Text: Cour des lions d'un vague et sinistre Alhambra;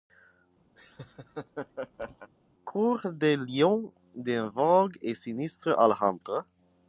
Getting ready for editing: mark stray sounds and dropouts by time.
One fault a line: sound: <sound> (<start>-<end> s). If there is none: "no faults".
sound: laugh (0.8-2.3 s)